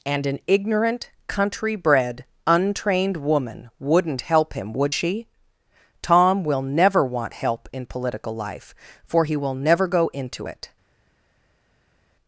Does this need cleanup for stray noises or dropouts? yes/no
no